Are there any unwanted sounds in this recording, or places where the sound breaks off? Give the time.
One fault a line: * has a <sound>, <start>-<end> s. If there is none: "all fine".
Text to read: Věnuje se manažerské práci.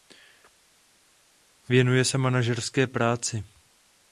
all fine